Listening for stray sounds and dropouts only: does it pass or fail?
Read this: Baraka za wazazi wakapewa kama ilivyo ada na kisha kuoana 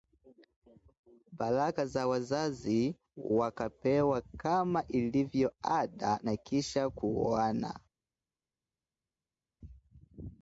pass